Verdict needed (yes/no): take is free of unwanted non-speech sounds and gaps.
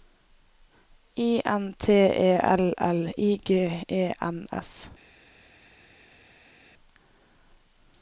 yes